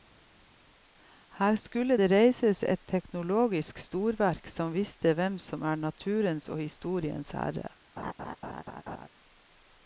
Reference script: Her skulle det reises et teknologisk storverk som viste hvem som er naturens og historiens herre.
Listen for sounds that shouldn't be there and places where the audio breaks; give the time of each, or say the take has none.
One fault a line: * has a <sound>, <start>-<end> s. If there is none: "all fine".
* has a laugh, 8.0-9.1 s